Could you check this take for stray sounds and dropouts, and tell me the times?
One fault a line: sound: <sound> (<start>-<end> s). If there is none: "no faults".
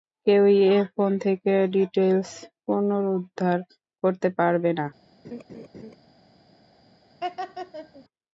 sound: laugh (5.2-6.0 s)
sound: laugh (7.2-8.0 s)